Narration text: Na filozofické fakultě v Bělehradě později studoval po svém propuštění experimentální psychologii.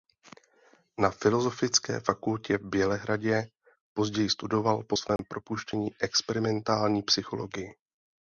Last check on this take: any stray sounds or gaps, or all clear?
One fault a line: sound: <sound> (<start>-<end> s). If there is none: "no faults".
sound: dropout (5.2-5.2 s)